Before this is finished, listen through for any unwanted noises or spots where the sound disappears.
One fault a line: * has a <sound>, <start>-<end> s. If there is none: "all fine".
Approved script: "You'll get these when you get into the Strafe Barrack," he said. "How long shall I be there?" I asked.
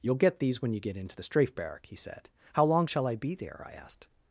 all fine